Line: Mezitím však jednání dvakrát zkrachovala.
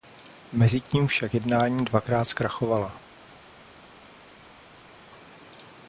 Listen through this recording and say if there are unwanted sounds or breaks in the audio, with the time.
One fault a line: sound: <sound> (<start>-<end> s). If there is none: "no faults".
no faults